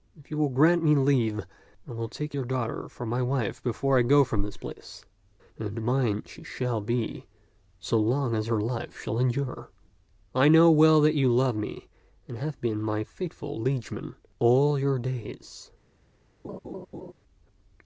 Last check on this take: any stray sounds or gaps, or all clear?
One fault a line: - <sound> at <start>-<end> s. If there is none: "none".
- laugh at 16.4-17.1 s